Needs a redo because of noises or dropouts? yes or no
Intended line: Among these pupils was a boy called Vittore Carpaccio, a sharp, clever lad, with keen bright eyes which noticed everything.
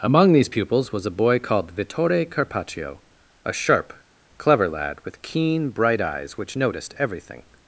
no